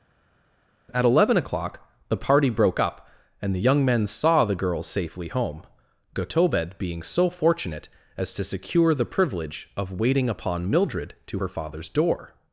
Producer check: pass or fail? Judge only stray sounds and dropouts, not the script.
pass